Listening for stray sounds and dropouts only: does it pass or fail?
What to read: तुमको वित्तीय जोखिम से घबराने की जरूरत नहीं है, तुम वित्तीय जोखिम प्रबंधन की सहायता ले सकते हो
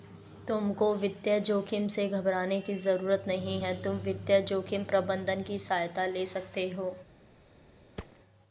fail